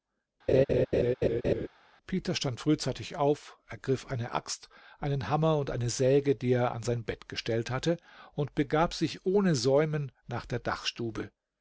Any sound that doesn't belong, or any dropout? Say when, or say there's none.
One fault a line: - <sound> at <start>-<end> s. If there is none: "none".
- laugh at 0.5-1.7 s